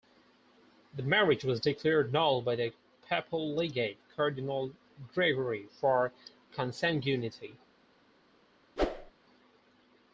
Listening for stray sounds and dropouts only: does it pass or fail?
fail